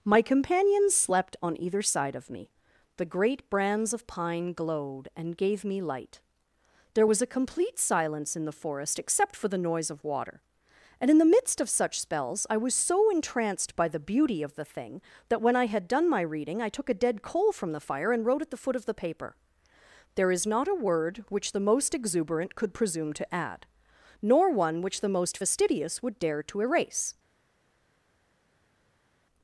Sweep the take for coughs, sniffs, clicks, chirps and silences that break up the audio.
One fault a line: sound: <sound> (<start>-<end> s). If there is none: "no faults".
no faults